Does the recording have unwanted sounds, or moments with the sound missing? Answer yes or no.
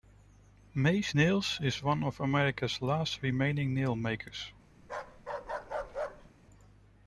yes